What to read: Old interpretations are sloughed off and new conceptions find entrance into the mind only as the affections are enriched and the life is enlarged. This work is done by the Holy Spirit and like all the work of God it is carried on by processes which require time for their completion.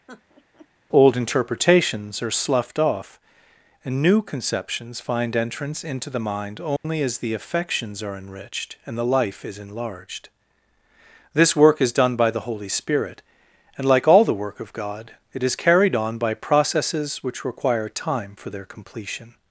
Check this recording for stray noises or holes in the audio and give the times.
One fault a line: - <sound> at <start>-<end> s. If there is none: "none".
- laugh at 0.1-0.7 s
- dropout at 6.8-6.8 s